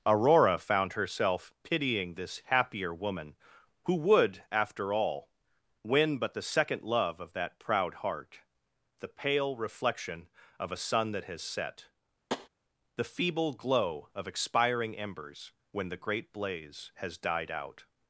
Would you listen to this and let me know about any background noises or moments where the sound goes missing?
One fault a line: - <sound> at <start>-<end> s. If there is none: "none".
- tap at 12.3-12.5 s